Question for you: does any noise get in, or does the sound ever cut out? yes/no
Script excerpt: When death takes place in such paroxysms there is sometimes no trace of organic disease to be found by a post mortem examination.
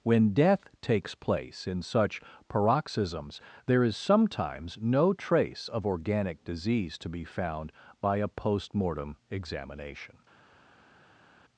no